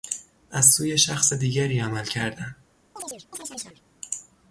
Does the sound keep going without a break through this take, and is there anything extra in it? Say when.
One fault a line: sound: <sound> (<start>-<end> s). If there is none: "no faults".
sound: chirp (3.0-3.8 s)